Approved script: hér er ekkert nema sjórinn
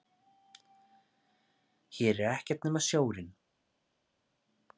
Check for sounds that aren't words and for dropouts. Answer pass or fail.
pass